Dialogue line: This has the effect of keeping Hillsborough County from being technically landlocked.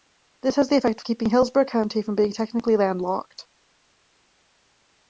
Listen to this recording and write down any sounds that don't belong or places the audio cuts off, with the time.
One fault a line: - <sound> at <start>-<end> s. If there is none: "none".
none